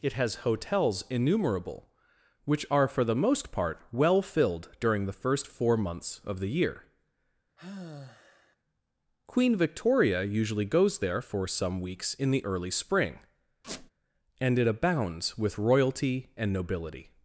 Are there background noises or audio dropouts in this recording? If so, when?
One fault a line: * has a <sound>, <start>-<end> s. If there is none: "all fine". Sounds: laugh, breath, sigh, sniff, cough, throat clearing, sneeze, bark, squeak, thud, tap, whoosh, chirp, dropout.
* has a sigh, 7.6-8.6 s
* has a squeak, 13.6-13.9 s